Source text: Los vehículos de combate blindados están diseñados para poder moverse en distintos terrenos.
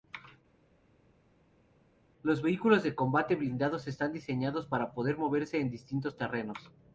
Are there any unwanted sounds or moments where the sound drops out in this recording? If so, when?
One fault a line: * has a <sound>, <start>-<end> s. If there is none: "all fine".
all fine